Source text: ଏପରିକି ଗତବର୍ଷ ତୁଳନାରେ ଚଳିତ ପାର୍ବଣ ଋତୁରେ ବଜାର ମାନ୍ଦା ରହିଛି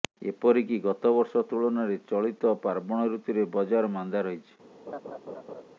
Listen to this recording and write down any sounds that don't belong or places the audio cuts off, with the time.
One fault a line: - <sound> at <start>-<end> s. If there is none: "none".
- laugh at 4.9-5.6 s